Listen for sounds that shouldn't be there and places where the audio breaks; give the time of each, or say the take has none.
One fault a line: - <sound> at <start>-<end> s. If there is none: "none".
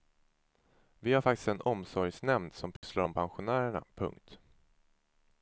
- dropout at 2.8-2.8 s